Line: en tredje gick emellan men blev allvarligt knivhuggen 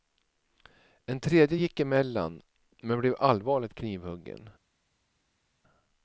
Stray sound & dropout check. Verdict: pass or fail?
pass